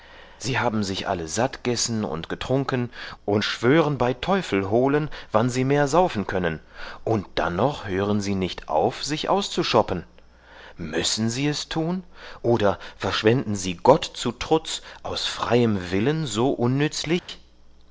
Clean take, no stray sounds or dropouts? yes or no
no